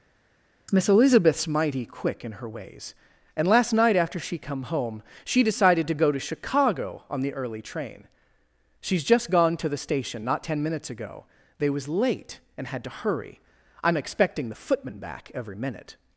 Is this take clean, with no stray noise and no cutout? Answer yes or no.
yes